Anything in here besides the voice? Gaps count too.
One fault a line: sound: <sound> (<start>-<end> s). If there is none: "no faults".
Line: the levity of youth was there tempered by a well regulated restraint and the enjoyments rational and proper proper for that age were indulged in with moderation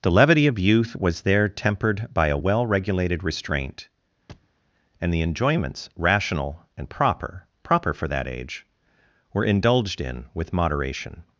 sound: thud (4.3-4.5 s)